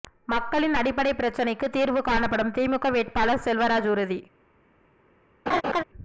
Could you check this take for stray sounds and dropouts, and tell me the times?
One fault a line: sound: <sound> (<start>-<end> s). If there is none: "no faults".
sound: laugh (5.5-5.8 s)